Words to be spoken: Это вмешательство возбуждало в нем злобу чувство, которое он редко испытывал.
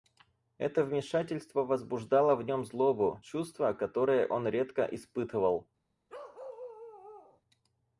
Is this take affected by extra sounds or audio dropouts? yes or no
yes